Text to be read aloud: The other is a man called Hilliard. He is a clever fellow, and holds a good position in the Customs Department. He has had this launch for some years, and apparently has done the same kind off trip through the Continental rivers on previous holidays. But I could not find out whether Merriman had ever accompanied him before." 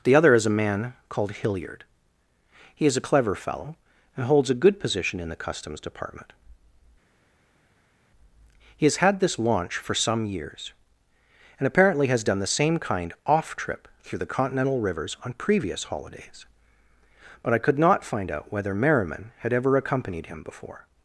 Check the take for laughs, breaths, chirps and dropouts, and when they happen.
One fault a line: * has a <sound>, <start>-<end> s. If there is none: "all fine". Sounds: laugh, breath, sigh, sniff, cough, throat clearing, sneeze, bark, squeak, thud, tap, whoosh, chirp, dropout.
all fine